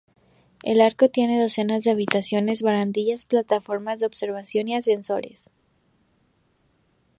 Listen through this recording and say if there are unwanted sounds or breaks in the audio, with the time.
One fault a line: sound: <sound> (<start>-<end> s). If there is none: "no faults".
no faults